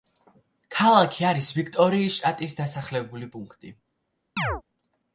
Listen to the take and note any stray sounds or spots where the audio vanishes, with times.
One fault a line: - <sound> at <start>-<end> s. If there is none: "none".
- chirp at 4.4-4.6 s